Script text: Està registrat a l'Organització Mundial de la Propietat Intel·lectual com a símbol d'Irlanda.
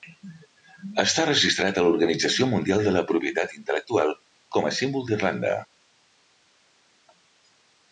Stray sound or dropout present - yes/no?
no